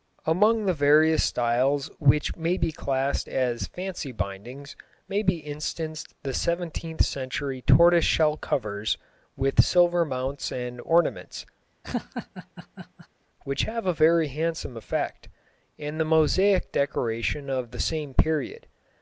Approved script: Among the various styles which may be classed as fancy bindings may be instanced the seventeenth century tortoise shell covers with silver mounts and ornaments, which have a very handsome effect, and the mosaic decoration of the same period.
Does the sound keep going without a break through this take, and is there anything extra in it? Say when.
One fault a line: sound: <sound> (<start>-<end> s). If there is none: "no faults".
sound: laugh (11.8-13.1 s)